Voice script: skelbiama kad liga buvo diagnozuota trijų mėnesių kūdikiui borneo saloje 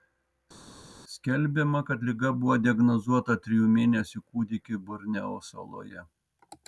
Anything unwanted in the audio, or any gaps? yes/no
no